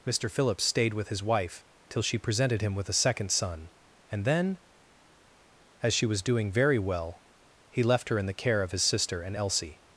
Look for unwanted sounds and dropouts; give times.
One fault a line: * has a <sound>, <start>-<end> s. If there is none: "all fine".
all fine